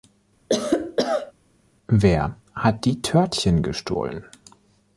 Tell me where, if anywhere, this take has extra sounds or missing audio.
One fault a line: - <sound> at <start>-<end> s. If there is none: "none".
- cough at 0.5-1.3 s